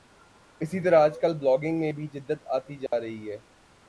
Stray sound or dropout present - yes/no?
yes